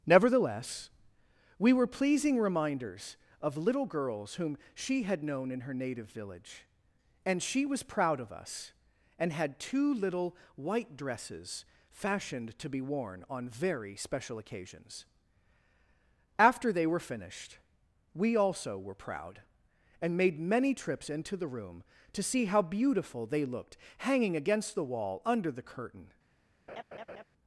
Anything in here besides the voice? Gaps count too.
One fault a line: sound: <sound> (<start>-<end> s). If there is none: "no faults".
sound: laugh (26.7-27.2 s)